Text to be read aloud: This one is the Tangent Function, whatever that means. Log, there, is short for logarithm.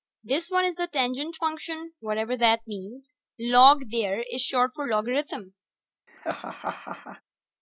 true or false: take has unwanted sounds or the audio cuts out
true